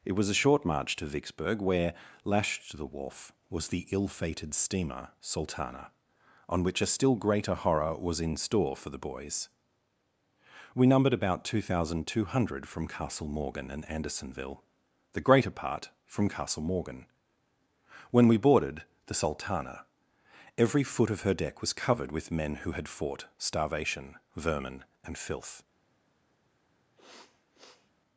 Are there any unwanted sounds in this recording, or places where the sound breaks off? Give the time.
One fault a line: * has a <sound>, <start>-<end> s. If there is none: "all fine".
* has a sniff, 27.0-27.9 s